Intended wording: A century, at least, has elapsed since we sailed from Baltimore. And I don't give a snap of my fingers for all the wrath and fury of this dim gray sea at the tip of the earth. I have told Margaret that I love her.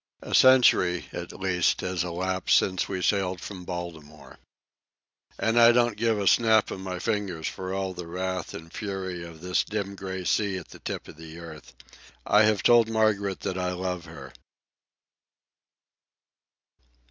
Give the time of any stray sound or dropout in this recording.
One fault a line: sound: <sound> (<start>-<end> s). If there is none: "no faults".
no faults